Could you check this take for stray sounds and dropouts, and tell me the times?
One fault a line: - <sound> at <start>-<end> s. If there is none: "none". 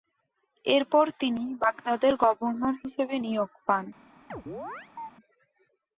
- chirp at 4.3-5.1 s